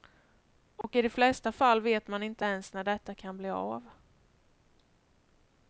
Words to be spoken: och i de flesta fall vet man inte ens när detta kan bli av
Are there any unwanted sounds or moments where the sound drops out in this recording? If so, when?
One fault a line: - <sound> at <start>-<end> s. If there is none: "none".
- dropout at 0.8-0.8 s